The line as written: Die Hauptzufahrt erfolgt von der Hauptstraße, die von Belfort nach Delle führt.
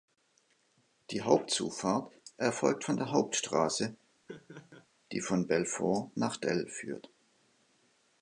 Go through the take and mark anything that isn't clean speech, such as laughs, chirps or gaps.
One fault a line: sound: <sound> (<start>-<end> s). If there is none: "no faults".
sound: laugh (4.3-4.9 s)